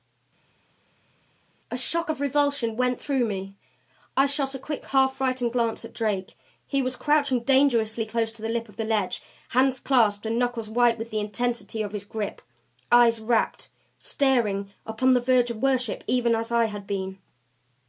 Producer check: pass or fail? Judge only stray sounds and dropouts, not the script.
pass